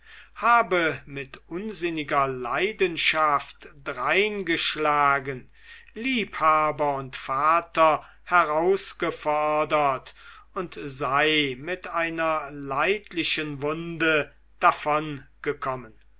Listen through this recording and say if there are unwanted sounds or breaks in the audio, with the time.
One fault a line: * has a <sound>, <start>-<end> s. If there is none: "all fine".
all fine